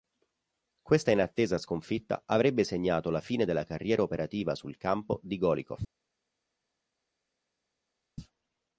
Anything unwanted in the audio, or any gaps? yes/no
no